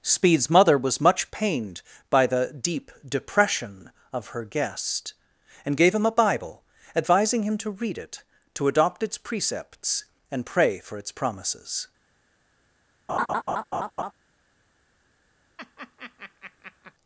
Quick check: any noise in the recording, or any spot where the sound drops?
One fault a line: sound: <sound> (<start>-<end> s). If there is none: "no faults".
sound: laugh (13.1-14.1 s)
sound: laugh (15.6-16.9 s)